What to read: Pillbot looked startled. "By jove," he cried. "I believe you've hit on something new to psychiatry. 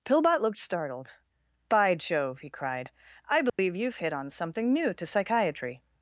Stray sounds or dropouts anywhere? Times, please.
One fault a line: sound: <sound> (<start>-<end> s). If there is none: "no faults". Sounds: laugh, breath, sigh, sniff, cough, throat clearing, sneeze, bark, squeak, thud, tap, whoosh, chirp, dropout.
sound: dropout (3.5-3.6 s)